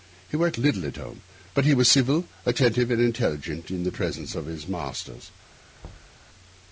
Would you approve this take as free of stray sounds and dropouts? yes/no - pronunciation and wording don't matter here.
no